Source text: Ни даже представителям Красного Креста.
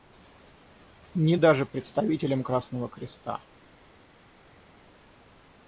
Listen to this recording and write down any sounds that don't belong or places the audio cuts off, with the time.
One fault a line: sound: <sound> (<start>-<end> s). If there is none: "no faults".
no faults